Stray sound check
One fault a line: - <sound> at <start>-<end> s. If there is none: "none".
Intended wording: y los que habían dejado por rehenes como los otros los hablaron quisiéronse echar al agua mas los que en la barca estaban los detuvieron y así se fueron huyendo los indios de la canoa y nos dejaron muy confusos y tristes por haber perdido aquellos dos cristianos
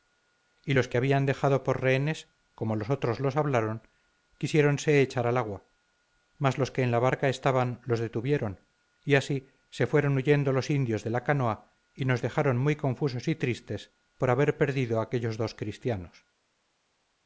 none